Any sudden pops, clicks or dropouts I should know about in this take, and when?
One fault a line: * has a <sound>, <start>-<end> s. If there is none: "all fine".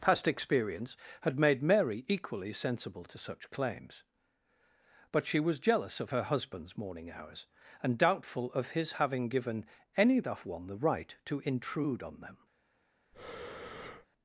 * has a breath, 13.1-14.1 s